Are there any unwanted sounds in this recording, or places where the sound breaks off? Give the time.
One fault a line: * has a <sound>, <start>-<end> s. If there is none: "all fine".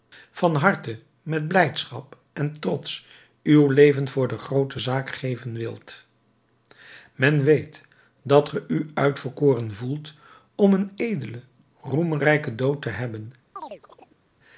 * has a chirp, 13.6-14.2 s